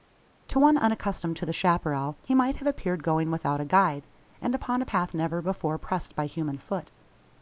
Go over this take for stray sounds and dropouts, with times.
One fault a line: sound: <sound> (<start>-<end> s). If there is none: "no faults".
no faults